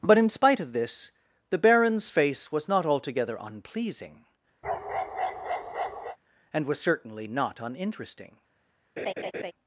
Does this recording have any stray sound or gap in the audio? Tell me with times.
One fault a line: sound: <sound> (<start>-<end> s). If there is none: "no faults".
sound: bark (4.6-6.2 s)
sound: laugh (9.0-9.5 s)